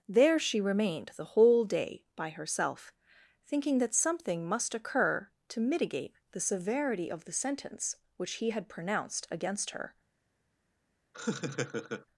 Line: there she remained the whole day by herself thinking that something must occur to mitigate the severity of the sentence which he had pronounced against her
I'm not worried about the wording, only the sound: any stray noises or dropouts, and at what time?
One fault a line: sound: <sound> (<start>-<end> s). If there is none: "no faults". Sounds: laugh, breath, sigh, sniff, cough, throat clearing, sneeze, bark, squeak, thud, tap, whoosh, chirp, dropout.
sound: laugh (11.1-12.1 s)